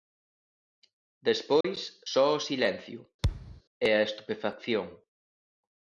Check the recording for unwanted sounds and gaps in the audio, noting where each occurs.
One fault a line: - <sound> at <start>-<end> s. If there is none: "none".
- dropout at 1.6-1.6 s
- thud at 3.2-3.6 s